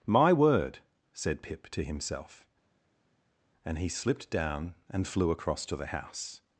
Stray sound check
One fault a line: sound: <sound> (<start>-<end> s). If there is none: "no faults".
no faults